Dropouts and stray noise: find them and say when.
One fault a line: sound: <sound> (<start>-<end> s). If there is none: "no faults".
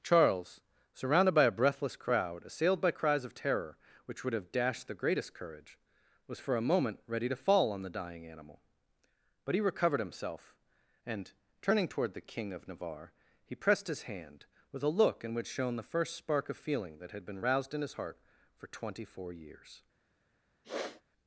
sound: sniff (20.6-21.0 s)